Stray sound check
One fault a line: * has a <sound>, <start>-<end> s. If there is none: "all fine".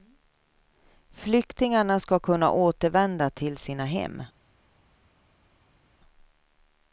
all fine